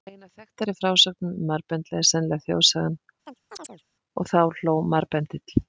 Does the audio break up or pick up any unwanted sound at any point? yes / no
yes